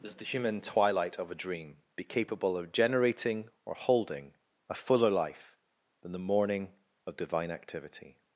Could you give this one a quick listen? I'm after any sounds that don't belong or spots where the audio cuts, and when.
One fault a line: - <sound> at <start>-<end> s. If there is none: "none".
none